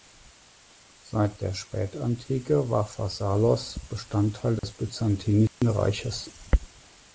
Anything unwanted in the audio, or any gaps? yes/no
yes